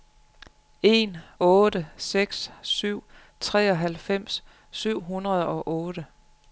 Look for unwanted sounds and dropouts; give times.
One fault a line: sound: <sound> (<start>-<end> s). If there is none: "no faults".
no faults